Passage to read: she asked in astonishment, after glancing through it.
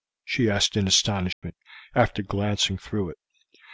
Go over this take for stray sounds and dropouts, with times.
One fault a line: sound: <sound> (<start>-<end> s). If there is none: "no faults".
sound: dropout (1.3-1.4 s)